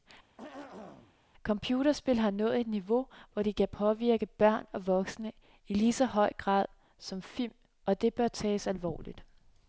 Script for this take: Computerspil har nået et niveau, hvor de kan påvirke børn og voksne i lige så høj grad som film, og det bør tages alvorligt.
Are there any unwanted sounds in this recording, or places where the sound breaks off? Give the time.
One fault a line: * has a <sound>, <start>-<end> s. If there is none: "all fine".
* has a throat clearing, 0.4-1.2 s